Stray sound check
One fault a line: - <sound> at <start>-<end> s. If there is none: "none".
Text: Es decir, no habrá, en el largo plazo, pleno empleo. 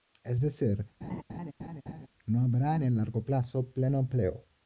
- laugh at 1.0-2.1 s